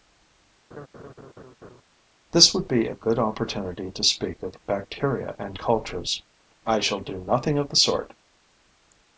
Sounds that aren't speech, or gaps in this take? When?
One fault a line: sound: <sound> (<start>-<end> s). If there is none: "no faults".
sound: laugh (0.7-1.8 s)